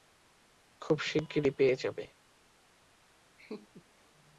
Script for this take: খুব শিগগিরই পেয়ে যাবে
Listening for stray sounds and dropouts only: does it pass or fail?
fail